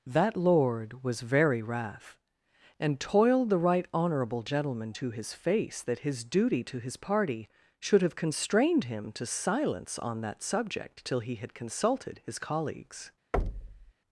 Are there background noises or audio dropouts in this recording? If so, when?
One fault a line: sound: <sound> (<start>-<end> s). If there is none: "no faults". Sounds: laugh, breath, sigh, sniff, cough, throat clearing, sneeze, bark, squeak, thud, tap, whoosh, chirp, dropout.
sound: thud (13.3-13.9 s)